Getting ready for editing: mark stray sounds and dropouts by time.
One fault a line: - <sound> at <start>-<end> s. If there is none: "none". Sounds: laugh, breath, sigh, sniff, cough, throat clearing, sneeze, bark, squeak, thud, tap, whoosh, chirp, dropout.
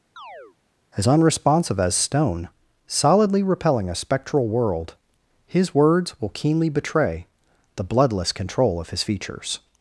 - chirp at 0.2-0.6 s